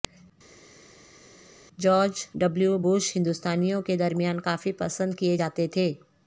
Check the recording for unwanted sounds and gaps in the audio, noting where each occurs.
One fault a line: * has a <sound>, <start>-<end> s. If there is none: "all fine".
all fine